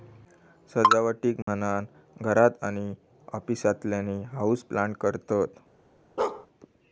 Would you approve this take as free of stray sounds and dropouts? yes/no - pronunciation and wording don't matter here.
no